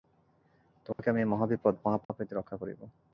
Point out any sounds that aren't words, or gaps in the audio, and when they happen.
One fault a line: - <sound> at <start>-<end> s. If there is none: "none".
- dropout at 0.9-1.0 s
- dropout at 2.0-2.1 s